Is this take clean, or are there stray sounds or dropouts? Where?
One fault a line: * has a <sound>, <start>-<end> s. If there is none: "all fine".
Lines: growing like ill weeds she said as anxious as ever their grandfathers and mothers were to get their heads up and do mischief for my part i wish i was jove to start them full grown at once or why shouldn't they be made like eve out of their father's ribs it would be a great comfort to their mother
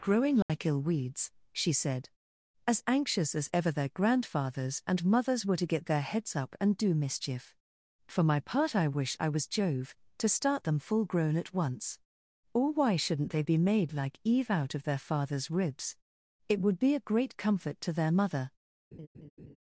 * has a dropout, 0.4-0.5 s
* has a laugh, 18.9-19.6 s